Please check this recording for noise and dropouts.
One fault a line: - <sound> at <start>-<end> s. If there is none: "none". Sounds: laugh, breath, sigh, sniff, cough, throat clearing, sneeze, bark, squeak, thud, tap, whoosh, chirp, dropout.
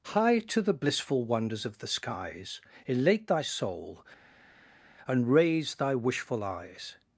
none